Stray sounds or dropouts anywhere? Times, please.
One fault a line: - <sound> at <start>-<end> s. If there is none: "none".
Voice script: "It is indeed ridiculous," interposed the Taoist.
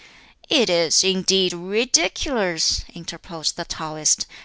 none